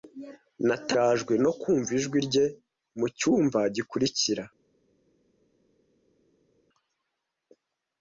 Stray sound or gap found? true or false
false